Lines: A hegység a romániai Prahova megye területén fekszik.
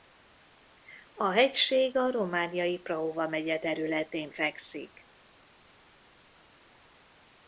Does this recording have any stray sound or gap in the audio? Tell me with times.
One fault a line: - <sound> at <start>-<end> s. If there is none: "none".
none